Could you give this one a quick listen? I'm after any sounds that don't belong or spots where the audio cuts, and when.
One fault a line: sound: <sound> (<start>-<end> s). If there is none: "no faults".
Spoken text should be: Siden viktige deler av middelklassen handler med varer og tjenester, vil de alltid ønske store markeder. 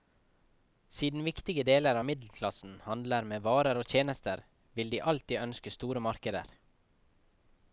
no faults